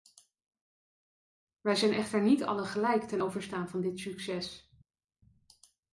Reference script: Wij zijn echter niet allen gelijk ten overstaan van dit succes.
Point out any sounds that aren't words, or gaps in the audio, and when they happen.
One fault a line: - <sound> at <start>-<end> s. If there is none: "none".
none